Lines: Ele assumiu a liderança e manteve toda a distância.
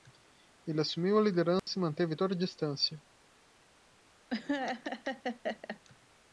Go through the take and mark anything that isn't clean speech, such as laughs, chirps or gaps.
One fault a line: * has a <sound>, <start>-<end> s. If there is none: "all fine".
* has a dropout, 1.6-1.7 s
* has a laugh, 4.3-5.8 s